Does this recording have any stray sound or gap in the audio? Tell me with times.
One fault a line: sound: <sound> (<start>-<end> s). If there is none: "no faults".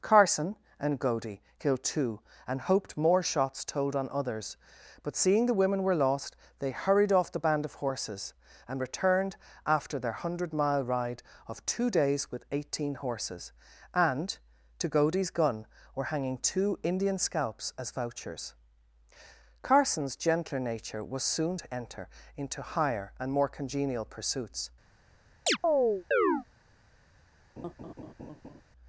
sound: chirp (25.5-26.4 s)
sound: laugh (27.6-28.6 s)